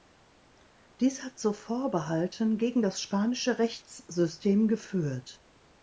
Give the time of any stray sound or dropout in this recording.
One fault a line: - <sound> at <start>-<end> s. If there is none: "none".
none